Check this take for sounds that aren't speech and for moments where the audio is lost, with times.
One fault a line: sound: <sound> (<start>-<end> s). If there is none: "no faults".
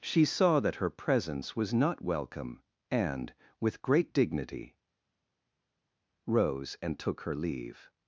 no faults